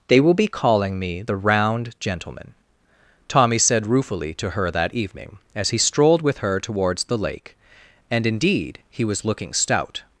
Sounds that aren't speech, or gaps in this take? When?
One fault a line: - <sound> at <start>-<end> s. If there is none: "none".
none